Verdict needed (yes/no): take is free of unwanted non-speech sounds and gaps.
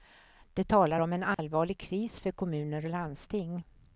no